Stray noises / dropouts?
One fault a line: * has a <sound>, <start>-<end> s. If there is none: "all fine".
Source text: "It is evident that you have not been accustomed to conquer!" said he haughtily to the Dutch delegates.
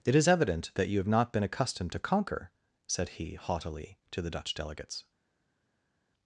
all fine